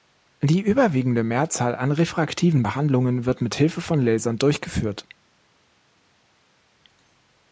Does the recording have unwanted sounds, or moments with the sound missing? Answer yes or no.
no